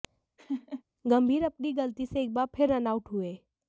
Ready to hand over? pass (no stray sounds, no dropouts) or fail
fail